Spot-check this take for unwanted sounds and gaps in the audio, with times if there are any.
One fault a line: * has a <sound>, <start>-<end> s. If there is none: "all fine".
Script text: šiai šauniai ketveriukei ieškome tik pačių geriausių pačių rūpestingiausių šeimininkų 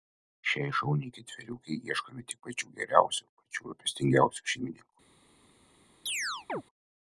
* has a chirp, 6.1-6.6 s